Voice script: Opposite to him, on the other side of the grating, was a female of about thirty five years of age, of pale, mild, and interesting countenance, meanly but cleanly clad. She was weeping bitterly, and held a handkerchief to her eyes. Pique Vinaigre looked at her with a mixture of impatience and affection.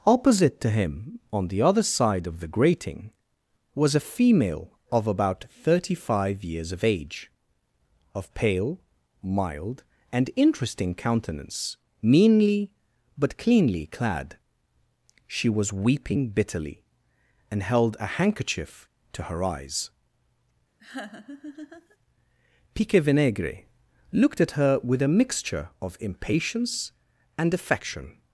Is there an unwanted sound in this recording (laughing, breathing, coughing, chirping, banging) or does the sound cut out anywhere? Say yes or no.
yes